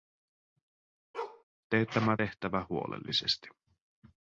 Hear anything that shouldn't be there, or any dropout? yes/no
yes